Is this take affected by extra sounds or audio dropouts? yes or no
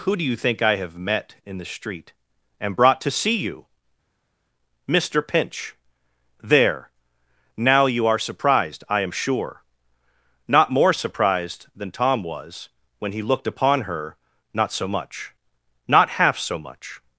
no